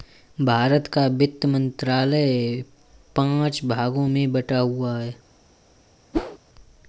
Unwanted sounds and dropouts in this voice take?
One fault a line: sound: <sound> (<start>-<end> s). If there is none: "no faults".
sound: whoosh (6.1-6.4 s)